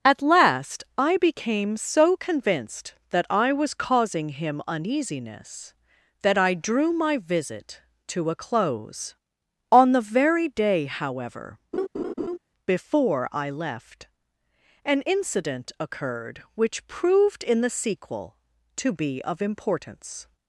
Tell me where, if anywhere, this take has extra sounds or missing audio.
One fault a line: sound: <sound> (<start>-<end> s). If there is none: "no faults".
sound: laugh (11.7-12.4 s)